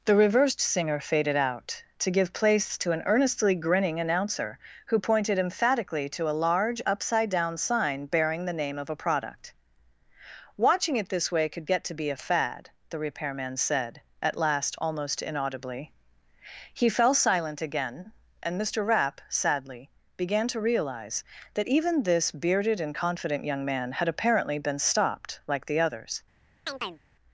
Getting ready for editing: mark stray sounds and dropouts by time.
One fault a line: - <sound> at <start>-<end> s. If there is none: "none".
- chirp at 26.7-27.0 s